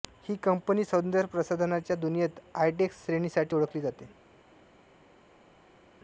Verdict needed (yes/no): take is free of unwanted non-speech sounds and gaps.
yes